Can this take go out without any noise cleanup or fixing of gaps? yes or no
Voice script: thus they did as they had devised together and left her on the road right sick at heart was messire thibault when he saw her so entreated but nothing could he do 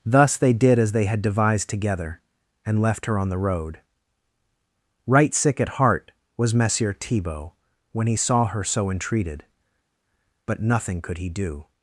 yes